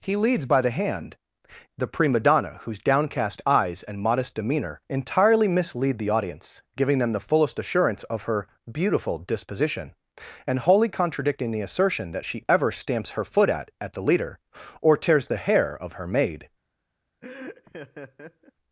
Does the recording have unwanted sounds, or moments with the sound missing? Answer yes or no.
yes